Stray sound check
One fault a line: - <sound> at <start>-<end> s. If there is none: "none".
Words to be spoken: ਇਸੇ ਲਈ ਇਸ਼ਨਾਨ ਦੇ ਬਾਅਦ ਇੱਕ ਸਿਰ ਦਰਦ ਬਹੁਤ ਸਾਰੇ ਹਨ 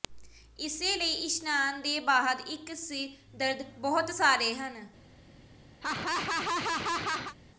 - laugh at 5.8-7.3 s